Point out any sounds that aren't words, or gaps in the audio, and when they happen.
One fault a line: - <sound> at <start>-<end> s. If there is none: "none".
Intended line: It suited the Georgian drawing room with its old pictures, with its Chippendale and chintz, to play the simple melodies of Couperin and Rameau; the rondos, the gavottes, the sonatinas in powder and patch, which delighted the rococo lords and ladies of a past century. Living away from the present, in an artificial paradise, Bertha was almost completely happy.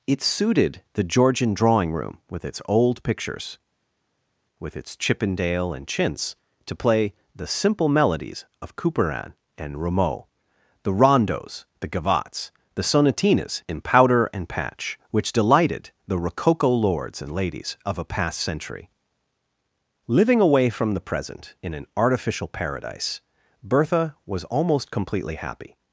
none